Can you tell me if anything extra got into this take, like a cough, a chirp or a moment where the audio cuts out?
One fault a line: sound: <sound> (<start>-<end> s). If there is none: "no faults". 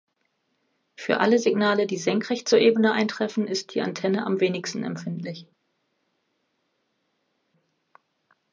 no faults